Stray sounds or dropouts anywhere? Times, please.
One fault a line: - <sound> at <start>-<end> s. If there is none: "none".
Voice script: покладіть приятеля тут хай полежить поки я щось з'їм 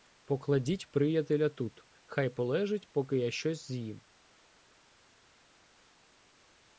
none